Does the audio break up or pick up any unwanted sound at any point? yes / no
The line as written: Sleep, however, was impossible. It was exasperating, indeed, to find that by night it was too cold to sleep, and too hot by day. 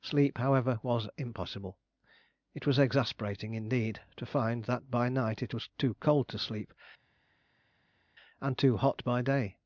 no